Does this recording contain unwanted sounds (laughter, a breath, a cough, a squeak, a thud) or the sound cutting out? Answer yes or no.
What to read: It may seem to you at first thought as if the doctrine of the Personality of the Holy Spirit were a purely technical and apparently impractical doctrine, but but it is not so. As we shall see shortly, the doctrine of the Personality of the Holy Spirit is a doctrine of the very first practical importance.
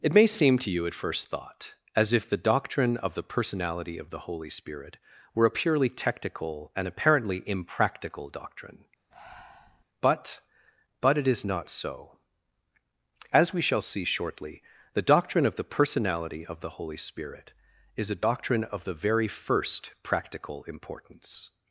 yes